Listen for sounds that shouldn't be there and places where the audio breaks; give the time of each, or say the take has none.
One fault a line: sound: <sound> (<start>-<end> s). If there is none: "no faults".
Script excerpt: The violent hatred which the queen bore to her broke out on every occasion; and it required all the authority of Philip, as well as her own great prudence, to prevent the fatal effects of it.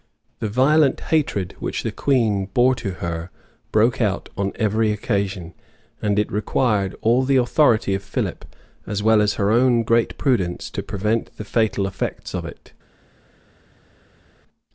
no faults